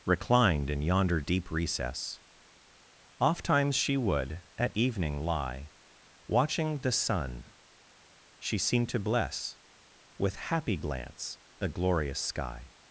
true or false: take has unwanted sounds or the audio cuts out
false